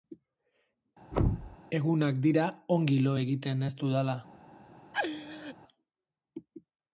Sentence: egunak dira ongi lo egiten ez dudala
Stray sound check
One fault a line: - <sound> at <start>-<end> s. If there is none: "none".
- thud at 1.1-1.6 s
- laugh at 4.9-5.5 s